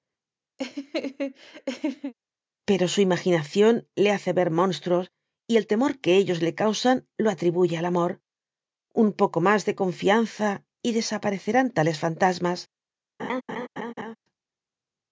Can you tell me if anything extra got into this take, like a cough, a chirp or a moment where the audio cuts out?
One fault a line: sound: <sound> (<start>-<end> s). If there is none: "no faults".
sound: laugh (0.6-2.1 s)
sound: laugh (13.2-14.2 s)